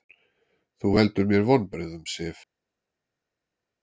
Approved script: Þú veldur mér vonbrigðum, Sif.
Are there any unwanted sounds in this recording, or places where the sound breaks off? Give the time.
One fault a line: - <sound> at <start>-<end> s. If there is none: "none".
none